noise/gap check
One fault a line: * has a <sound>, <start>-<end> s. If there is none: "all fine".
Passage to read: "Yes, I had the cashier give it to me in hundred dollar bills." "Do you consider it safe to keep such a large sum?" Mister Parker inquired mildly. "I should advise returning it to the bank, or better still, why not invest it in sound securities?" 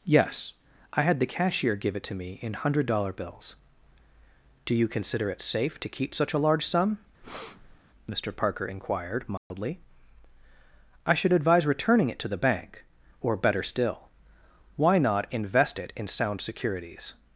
* has a breath, 7.2-7.8 s
* has a dropout, 9.4-9.5 s